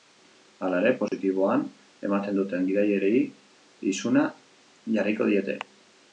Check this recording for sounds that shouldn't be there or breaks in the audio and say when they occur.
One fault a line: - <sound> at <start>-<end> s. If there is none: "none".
- dropout at 1.1-1.1 s